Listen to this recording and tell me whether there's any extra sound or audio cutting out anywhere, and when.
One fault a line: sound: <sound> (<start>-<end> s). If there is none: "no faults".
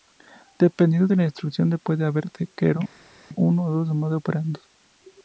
no faults